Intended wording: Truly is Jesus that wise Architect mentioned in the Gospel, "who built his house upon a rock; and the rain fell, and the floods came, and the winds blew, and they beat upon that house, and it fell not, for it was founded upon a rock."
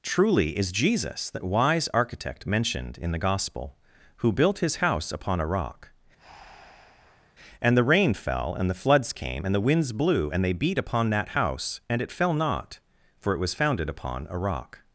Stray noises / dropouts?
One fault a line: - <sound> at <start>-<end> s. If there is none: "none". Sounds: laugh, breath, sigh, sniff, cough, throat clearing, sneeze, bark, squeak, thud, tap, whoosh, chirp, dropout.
- breath at 6.2-7.4 s